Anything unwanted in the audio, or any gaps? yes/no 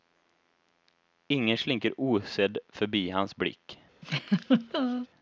yes